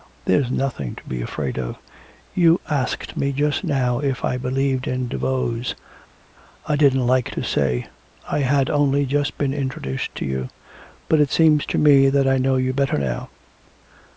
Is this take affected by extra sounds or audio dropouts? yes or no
no